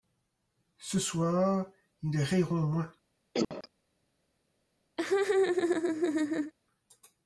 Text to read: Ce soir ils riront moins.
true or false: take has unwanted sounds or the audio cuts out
true